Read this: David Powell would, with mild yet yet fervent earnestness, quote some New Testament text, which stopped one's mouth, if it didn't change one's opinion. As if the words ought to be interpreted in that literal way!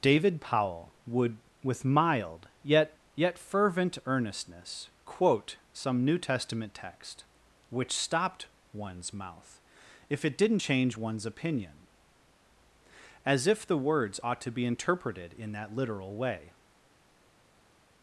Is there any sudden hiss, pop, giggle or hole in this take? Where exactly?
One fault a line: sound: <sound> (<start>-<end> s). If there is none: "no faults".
no faults